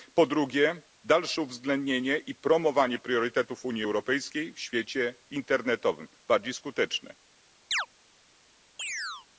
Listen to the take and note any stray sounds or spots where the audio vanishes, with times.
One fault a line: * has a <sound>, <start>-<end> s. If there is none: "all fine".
* has a chirp, 7.7-7.9 s
* has a chirp, 8.8-9.3 s